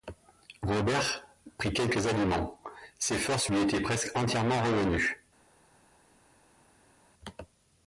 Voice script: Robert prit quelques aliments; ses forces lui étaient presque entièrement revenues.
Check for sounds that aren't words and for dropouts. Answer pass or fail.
pass